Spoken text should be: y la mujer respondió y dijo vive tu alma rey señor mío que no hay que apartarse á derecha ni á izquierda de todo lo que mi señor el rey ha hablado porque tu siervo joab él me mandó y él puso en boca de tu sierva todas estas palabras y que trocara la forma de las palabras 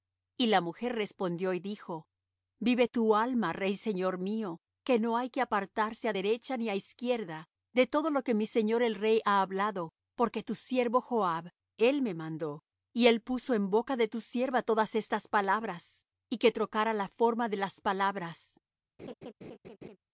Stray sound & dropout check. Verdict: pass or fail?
fail